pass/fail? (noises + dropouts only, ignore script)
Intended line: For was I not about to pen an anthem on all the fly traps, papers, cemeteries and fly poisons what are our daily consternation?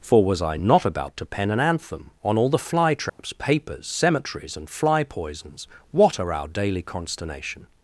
fail